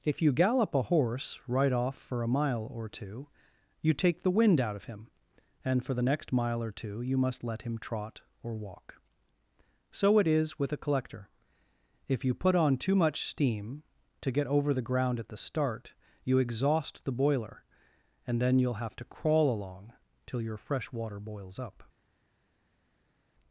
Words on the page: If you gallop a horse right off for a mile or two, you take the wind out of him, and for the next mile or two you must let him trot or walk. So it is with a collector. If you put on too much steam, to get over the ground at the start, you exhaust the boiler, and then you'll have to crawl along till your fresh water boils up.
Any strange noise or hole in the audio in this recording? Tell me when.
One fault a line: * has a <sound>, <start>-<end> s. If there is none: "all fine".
all fine